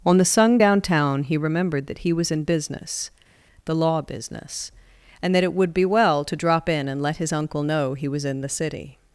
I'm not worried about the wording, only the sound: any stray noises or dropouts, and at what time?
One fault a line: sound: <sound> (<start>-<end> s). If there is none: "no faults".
no faults